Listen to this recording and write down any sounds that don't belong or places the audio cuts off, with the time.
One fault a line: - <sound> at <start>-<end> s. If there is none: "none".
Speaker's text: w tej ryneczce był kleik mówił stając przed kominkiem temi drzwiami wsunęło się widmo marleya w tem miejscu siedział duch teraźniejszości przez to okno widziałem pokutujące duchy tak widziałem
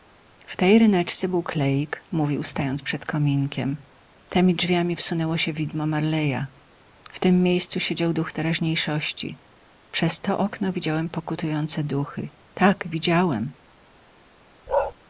- bark at 14.7-14.9 s